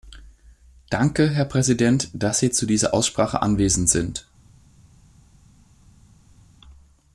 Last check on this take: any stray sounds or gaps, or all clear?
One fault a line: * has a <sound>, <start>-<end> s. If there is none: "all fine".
all fine